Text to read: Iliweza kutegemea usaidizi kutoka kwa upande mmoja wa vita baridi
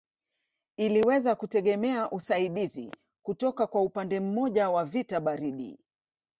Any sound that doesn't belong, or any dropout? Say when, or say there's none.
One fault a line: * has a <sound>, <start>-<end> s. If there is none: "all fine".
all fine